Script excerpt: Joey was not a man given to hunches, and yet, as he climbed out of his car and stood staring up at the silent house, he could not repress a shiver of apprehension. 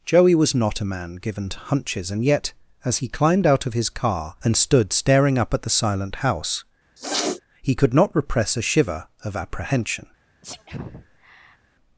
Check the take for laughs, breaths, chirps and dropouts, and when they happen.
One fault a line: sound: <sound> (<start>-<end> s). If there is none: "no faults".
sound: sniff (7.0-7.4 s)
sound: sneeze (10.4-11.6 s)